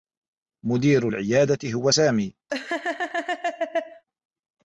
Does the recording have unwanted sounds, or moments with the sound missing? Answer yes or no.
yes